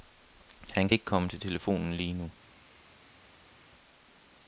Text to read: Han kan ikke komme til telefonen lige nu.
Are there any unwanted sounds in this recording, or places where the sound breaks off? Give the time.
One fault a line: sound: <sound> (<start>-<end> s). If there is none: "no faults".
no faults